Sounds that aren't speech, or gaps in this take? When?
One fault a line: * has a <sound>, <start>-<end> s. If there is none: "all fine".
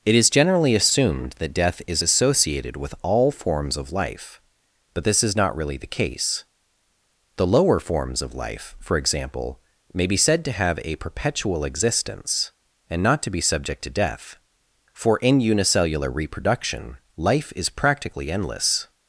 all fine